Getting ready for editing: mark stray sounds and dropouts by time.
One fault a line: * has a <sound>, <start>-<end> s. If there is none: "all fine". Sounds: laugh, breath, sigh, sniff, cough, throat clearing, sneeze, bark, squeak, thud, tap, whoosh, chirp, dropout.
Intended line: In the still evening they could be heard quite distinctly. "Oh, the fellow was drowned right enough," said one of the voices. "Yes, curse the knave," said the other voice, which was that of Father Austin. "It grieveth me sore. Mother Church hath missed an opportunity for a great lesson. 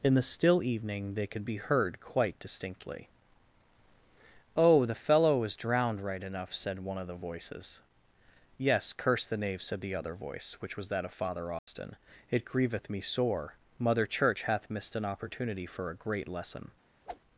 * has a dropout, 11.6-11.7 s
* has a whoosh, 17.1-17.2 s